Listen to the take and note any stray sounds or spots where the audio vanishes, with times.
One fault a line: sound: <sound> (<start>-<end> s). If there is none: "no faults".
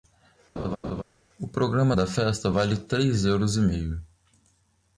sound: laugh (0.6-1.0 s)